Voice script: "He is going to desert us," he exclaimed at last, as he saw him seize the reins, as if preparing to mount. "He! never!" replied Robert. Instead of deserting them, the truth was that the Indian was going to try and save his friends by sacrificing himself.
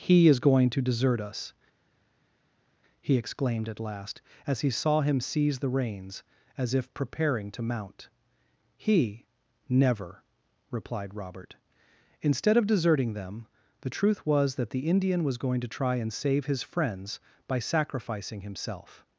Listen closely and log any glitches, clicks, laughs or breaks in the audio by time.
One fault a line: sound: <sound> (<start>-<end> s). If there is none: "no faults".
no faults